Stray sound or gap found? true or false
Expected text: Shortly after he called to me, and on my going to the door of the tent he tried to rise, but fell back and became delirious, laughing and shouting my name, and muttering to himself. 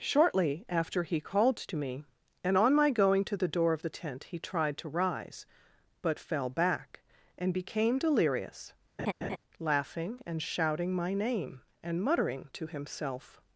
true